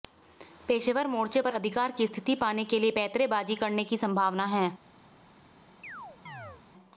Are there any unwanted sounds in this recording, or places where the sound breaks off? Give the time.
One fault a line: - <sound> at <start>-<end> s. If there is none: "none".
- chirp at 5.8-6.6 s